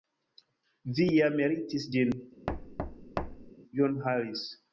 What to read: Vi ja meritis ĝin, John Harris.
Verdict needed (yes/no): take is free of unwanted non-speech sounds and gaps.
no